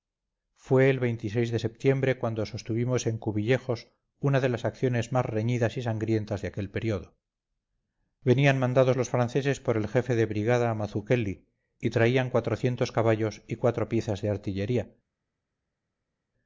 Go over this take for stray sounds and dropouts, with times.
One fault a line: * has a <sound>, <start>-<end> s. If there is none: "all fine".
all fine